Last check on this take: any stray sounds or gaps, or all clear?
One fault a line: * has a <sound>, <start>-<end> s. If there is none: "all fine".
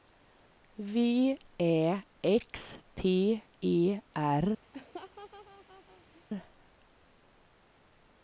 * has a laugh, 4.7-6.2 s